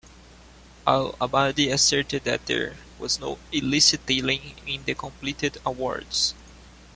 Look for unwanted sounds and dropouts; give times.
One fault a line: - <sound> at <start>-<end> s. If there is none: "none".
none